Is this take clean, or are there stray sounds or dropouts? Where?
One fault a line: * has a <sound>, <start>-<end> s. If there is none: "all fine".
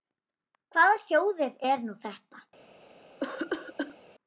* has a cough, 3.2-4.0 s